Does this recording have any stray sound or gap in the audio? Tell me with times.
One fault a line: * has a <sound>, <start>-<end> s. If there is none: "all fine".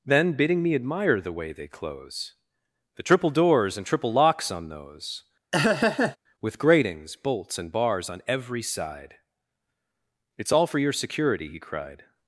* has a laugh, 5.5-6.2 s